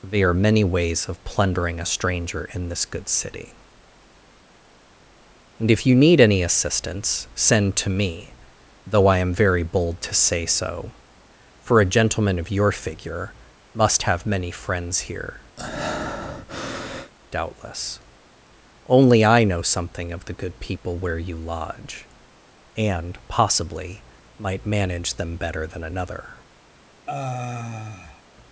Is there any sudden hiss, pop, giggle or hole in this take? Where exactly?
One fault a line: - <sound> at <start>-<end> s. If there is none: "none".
- breath at 15.6-17.1 s
- sigh at 27.1-28.2 s